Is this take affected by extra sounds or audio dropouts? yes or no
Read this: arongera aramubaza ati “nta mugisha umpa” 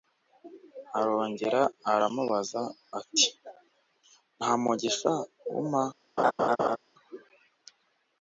yes